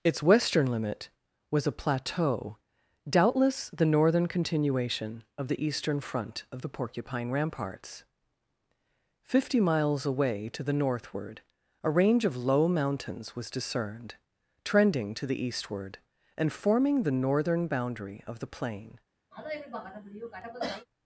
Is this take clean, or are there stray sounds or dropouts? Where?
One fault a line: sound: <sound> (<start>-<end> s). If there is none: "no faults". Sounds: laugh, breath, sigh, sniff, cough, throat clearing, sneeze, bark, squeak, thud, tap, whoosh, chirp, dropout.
sound: cough (19.3-20.9 s)